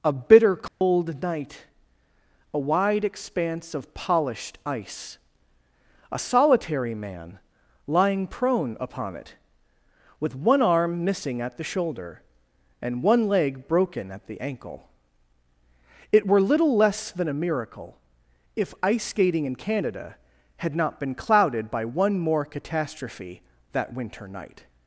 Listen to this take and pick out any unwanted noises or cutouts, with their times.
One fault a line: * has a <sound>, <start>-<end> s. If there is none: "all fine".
* has a dropout, 0.7-0.8 s